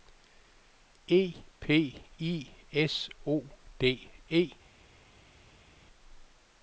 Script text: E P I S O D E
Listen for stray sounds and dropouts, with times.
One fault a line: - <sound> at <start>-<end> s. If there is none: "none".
none